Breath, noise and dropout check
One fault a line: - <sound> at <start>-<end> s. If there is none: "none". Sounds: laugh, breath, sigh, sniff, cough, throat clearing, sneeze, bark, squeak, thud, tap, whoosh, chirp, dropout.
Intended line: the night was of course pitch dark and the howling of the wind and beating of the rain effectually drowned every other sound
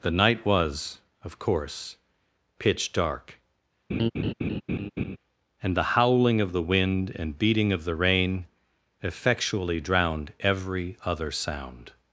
- laugh at 3.9-5.2 s